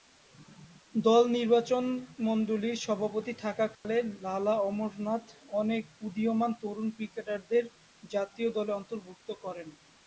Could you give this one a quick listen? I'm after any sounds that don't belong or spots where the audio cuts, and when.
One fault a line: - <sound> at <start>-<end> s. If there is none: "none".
- dropout at 3.8-3.8 s